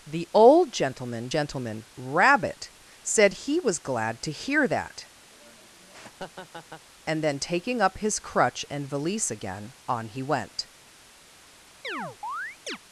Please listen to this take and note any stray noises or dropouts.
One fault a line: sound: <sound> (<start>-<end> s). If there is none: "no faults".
sound: laugh (5.3-6.9 s)
sound: chirp (11.8-12.8 s)